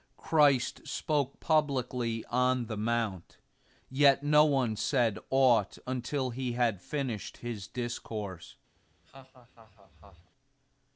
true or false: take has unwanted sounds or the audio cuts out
true